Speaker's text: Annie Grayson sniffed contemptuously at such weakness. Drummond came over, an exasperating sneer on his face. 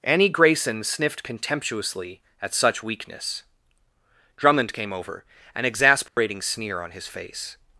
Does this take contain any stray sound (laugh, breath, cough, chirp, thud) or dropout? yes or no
yes